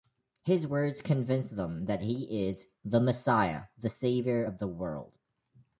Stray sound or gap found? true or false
false